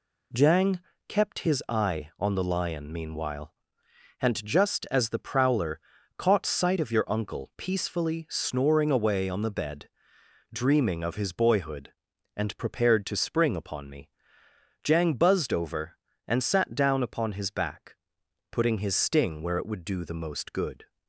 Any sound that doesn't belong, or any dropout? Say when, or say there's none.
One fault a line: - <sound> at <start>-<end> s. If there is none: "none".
none